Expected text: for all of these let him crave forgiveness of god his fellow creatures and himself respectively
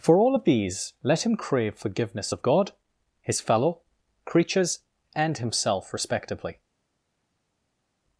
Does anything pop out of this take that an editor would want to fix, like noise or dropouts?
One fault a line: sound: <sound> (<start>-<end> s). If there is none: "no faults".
no faults